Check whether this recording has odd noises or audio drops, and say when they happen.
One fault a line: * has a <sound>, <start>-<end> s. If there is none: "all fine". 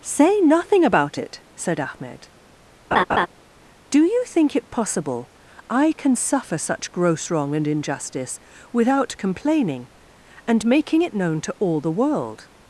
* has a laugh, 2.9-3.3 s